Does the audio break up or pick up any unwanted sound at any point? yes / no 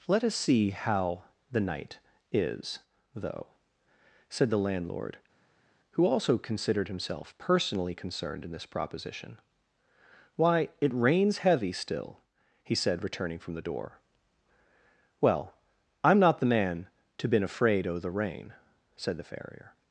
no